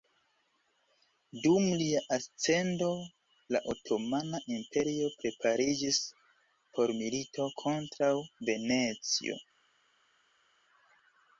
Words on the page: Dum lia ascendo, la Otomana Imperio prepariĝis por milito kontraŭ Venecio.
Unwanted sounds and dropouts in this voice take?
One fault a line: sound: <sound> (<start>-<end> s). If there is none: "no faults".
no faults